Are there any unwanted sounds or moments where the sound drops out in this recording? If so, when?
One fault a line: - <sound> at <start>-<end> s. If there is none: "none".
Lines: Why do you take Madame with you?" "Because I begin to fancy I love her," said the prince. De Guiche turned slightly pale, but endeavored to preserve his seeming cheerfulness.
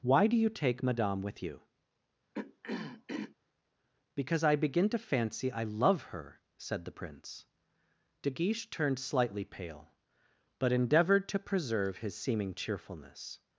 - throat clearing at 2.3-3.4 s